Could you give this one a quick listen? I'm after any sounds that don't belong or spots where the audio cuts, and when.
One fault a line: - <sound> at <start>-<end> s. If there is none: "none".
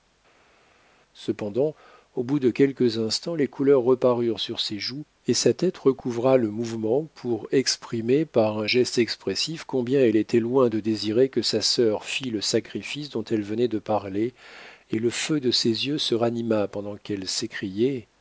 none